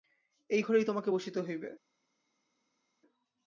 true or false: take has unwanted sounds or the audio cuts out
false